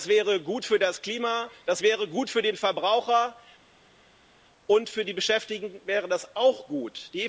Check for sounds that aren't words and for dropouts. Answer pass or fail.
pass